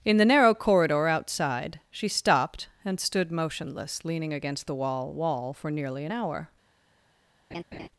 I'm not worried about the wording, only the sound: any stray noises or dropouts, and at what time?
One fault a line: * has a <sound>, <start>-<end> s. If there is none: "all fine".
* has a laugh, 7.5-7.9 s